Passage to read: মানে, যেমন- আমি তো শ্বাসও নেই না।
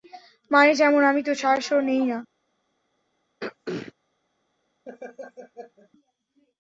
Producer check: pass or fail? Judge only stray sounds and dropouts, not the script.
fail